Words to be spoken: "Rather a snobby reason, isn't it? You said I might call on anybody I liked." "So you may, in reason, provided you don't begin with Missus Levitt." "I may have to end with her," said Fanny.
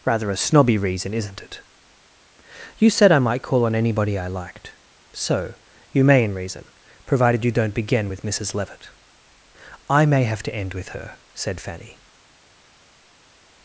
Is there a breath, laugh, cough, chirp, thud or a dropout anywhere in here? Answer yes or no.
no